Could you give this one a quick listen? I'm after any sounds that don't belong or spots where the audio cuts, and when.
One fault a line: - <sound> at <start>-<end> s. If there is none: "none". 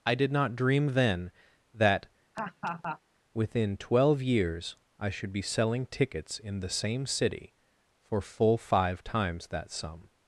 - laugh at 2.3-3.0 s